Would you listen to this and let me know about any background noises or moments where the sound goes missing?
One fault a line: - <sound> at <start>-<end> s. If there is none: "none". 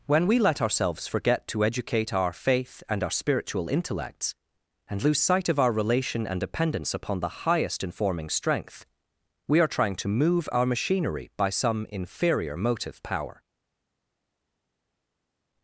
none